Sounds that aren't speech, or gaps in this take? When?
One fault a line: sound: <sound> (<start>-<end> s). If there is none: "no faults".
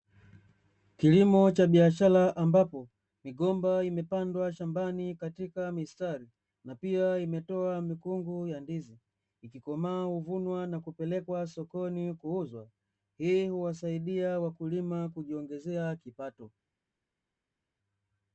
no faults